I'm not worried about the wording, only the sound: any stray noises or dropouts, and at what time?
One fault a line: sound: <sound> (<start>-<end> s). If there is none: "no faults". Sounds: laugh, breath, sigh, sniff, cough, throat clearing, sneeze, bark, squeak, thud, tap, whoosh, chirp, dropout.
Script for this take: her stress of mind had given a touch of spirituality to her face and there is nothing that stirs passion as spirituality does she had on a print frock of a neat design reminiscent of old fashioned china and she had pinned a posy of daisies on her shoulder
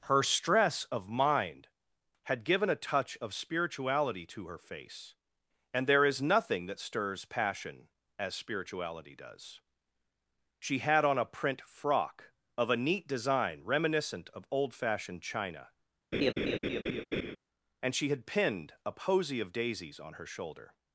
sound: laugh (16.1-17.4 s)